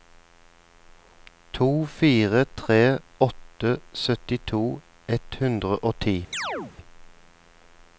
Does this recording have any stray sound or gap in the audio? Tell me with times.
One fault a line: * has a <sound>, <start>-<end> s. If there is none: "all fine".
* has a chirp, 6.3-6.7 s